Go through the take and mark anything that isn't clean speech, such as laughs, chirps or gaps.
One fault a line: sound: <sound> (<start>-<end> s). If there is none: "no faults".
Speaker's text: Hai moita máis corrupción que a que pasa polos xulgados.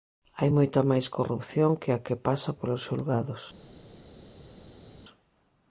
no faults